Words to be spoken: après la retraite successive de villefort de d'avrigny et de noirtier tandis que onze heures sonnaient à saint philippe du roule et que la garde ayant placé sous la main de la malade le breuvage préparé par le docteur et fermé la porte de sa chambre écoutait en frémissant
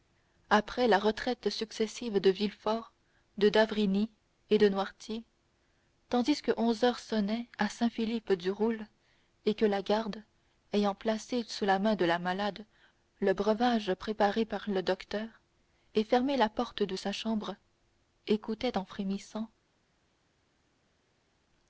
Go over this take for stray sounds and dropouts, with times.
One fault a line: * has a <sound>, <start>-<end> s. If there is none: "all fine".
all fine